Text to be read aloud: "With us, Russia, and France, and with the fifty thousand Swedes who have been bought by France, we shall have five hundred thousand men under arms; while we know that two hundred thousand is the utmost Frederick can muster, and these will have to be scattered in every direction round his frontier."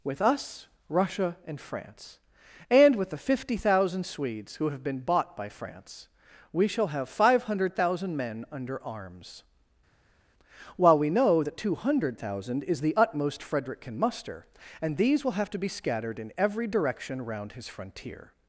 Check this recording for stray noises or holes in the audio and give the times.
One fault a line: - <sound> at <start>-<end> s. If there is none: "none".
none